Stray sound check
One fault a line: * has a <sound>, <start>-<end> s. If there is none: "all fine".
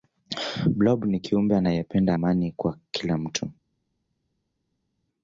all fine